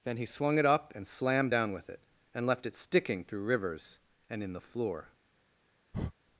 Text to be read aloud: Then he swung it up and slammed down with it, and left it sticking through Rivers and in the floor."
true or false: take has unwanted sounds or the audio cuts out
true